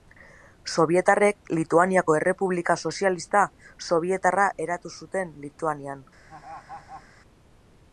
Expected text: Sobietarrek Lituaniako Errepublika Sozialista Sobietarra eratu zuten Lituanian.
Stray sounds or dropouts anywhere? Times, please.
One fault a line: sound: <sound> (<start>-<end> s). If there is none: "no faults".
sound: laugh (6.3-7.1 s)